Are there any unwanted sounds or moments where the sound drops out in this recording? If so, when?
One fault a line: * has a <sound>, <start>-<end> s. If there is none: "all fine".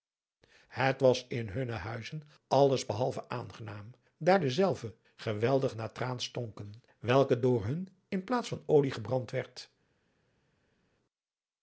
all fine